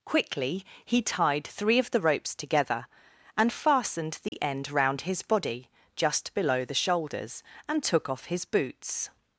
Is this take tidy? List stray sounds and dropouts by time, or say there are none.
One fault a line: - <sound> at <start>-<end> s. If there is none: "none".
- dropout at 4.3-4.3 s